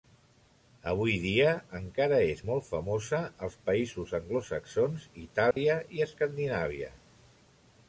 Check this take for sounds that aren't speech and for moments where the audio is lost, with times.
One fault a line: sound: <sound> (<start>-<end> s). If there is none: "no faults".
sound: dropout (5.5-5.6 s)